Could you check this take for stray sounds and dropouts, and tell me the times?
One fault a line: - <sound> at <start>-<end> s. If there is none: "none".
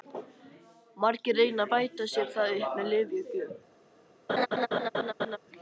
- laugh at 4.3-5.4 s